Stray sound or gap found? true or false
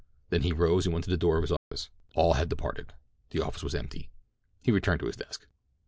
true